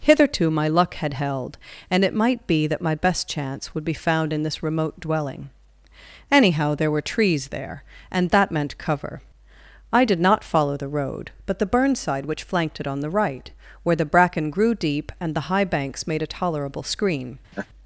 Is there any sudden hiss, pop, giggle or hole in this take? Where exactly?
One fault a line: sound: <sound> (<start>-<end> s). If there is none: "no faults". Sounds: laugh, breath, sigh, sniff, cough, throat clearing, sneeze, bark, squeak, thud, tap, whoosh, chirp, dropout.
sound: laugh (17.5-17.7 s)